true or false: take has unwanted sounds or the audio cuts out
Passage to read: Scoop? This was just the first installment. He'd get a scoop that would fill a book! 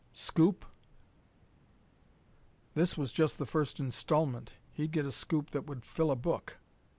false